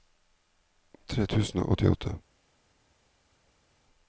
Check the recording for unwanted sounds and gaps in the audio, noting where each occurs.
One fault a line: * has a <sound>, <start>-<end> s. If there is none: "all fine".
all fine